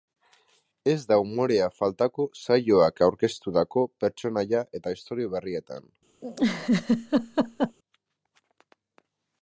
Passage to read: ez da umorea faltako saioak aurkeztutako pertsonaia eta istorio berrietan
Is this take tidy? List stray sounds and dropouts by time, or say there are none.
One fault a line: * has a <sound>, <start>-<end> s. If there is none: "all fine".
* has a laugh, 6.2-7.8 s